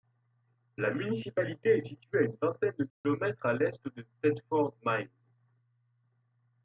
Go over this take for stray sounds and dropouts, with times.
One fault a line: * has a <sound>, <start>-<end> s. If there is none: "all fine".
* has a dropout, 2.9-3.0 s